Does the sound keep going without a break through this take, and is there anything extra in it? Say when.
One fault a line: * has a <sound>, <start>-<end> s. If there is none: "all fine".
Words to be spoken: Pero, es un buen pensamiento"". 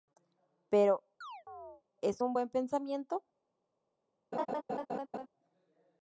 * has a chirp, 1.2-1.8 s
* has a laugh, 4.3-5.3 s